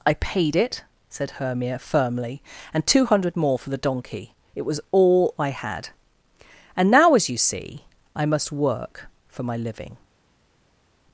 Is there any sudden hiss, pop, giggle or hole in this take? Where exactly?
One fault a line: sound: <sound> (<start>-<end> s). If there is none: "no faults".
no faults